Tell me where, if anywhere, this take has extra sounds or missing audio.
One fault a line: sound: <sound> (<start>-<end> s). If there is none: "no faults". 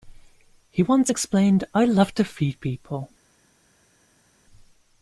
no faults